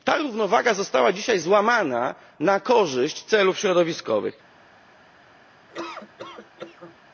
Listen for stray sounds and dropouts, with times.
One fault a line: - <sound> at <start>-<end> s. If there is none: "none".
- laugh at 5.7-7.0 s